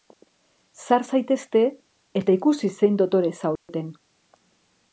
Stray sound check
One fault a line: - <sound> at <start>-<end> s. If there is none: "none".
- dropout at 3.6-3.7 s